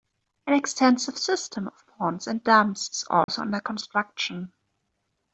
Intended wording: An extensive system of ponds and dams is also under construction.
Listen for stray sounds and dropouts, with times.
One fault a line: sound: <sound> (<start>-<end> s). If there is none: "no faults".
sound: dropout (3.2-3.3 s)